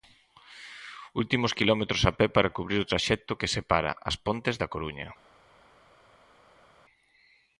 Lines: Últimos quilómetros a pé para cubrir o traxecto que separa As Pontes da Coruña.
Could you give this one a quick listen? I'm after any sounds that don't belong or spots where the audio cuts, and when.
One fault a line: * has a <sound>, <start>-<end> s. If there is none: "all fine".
all fine